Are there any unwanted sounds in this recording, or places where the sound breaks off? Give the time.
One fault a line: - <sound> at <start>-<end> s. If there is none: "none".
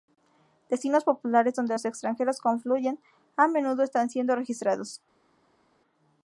none